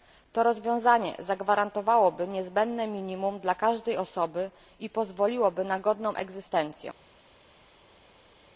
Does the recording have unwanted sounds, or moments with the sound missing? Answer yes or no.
no